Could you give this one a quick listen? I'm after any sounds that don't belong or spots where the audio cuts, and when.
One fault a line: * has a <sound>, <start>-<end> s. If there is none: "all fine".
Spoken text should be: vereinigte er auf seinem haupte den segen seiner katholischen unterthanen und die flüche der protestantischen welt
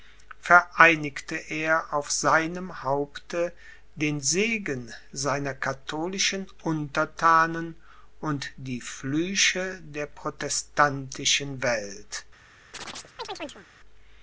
* has a chirp, 12.7-13.7 s